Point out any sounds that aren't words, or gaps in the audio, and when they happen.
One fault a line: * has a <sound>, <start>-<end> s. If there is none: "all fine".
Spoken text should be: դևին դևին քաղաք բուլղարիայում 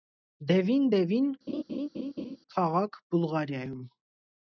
* has a laugh, 1.5-2.4 s